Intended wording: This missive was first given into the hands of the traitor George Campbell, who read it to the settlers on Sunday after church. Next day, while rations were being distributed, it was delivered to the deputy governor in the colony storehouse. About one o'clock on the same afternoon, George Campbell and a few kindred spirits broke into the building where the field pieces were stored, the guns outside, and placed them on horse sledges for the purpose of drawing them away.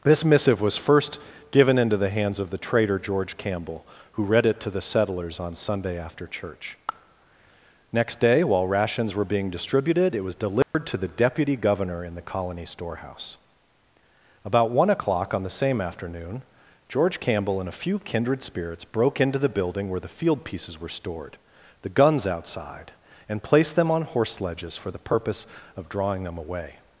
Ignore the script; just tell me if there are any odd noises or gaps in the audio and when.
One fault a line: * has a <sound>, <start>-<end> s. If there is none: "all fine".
* has a dropout, 10.6-10.7 s